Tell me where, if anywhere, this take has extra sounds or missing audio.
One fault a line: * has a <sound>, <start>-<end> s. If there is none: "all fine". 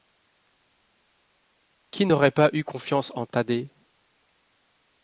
all fine